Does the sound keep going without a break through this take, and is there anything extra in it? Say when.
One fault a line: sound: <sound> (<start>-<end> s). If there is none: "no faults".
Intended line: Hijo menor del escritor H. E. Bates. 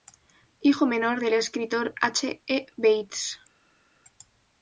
no faults